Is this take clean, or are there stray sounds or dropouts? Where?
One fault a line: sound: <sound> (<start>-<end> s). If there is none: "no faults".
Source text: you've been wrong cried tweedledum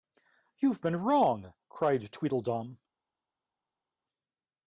no faults